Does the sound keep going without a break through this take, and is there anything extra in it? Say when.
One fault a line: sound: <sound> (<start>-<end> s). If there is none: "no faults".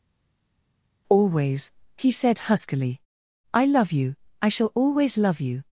no faults